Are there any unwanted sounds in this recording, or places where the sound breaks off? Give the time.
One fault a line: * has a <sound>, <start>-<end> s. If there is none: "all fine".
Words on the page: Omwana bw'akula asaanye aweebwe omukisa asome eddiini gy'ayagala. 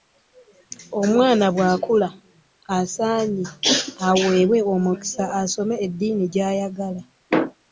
all fine